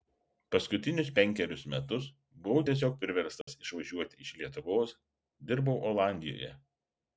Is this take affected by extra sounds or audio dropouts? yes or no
yes